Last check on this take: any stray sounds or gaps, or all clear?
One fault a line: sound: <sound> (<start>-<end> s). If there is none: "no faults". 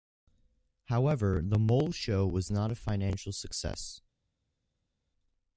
no faults